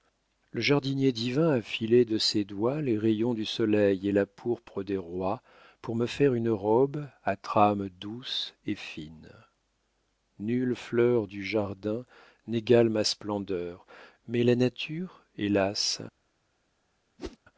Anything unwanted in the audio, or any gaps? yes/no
yes